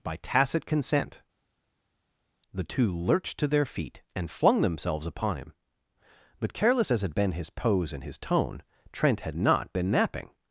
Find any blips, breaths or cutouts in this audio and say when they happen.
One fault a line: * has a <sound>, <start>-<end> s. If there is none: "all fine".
all fine